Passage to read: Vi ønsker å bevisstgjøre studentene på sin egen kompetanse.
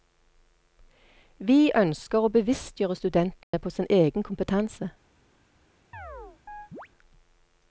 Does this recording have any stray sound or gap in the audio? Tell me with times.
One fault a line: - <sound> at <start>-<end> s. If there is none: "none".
- dropout at 3.4-3.5 s
- chirp at 5.9-6.9 s